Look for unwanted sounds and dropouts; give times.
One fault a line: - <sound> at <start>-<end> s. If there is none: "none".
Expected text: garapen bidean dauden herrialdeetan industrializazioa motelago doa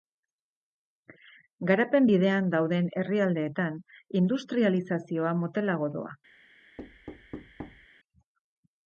- thud at 6.8-7.9 s